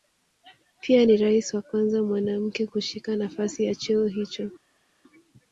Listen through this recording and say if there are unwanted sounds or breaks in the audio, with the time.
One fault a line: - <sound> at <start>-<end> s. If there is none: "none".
none